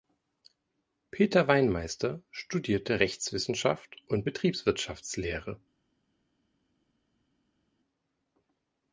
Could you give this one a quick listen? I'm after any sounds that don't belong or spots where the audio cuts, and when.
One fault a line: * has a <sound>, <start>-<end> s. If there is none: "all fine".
all fine